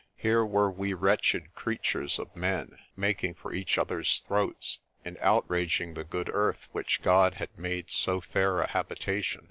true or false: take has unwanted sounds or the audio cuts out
false